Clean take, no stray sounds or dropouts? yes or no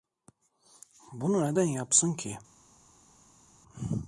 yes